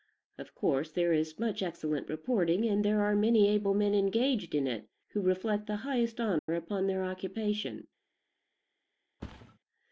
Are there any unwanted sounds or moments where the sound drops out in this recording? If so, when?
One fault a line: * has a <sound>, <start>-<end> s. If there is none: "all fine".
* has a dropout, 6.4-6.5 s
* has a thud, 9.2-9.6 s